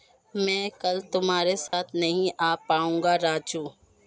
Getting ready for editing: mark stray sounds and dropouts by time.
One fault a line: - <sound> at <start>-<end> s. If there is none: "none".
- dropout at 1.7-1.7 s